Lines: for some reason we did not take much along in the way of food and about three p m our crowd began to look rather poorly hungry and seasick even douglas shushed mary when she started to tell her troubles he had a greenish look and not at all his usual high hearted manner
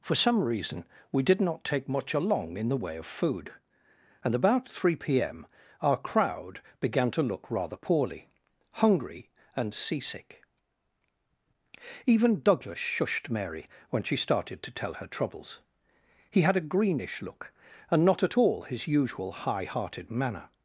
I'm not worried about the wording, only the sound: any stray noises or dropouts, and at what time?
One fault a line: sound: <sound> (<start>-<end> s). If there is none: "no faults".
no faults